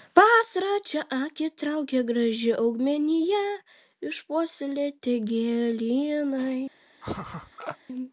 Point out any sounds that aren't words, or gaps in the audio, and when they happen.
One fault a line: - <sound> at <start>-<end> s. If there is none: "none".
- laugh at 7.0-7.8 s